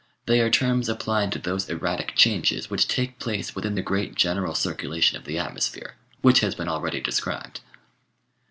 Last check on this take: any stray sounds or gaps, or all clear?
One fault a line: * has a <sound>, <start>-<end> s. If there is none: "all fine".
all fine